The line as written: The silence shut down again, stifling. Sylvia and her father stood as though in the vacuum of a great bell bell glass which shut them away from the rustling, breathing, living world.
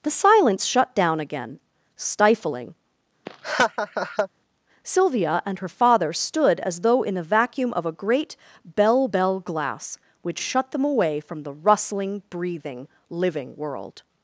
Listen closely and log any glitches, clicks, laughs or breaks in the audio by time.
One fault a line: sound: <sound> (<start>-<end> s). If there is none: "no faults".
sound: laugh (3.3-4.3 s)